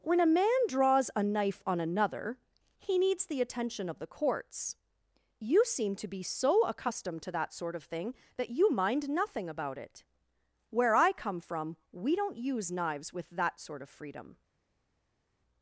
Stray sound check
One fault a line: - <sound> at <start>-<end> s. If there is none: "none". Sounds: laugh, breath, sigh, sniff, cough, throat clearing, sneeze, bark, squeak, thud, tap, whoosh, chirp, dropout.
none